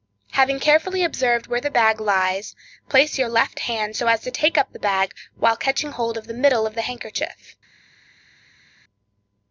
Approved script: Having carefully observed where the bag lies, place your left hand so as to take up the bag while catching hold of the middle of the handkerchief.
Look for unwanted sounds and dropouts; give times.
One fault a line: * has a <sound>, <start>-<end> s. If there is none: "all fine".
all fine